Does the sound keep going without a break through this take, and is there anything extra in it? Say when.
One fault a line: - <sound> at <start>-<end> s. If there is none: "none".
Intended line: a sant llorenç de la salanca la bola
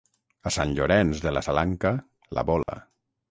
- dropout at 2.6-2.7 s